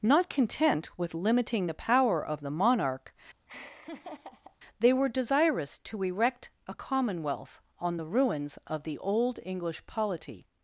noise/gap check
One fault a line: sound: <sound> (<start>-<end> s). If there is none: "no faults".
sound: laugh (3.5-4.6 s)